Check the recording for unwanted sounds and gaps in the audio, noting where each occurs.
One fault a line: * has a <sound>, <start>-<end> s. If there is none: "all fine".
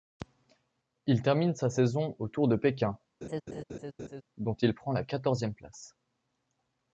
* has a laugh, 3.2-4.2 s